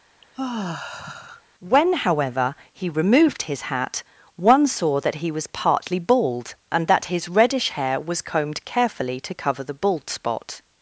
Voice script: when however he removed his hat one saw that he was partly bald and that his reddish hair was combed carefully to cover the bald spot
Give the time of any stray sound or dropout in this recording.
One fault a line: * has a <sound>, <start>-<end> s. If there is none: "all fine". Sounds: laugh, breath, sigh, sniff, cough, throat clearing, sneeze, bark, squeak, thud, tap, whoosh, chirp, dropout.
* has a sigh, 0.2-1.4 s